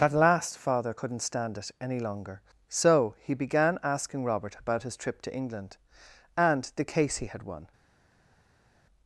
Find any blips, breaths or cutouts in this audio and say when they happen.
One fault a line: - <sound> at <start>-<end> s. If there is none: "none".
none